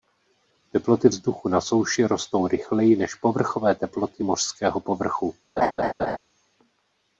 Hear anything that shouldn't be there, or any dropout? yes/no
yes